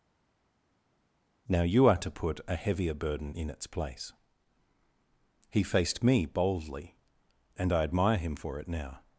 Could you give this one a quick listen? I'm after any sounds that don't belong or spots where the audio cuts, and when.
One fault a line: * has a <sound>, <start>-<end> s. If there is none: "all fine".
all fine